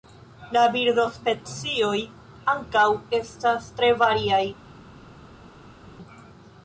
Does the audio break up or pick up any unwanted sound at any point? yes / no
no